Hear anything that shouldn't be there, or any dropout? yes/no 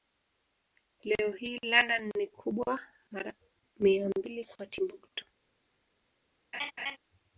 yes